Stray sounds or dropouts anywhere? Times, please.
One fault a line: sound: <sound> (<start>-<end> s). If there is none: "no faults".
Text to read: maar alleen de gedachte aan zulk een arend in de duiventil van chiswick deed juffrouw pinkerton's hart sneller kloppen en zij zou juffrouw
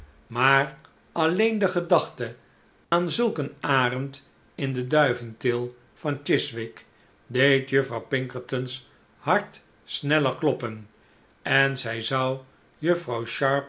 sound: dropout (2.8-2.9 s)